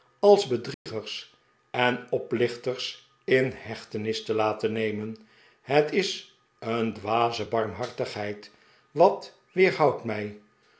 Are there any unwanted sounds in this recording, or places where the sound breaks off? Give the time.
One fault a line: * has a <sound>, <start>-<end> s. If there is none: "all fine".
* has a dropout, 0.7-0.9 s